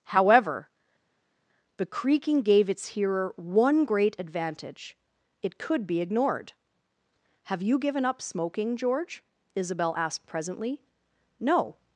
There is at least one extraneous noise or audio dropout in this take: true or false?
false